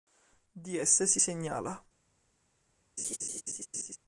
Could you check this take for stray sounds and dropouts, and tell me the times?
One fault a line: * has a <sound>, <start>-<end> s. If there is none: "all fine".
* has a laugh, 3.0-4.0 s